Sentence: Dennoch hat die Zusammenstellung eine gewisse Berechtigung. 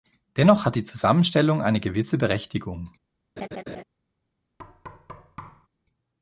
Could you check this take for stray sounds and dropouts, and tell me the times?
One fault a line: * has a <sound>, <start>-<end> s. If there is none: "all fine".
* has a laugh, 3.4-3.8 s
* has a thud, 4.6-5.7 s